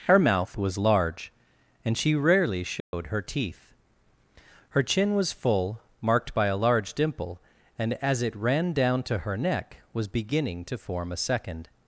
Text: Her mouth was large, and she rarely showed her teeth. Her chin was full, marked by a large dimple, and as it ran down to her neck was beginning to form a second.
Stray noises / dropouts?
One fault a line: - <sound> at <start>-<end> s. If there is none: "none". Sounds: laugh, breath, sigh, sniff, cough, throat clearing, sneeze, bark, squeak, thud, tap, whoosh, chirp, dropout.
- dropout at 2.8-2.9 s